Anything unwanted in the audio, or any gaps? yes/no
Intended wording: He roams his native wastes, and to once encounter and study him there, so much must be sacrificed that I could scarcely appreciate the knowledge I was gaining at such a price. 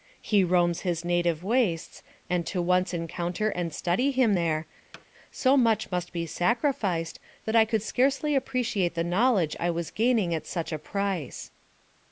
yes